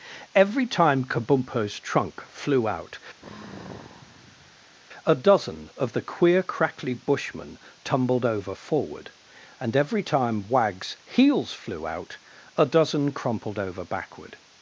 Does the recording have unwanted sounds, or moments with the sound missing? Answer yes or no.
yes